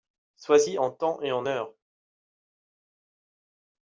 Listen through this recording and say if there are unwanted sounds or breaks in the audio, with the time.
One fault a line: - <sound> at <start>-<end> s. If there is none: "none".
none